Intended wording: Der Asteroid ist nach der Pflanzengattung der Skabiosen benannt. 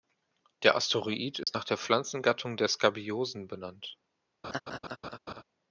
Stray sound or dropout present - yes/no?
yes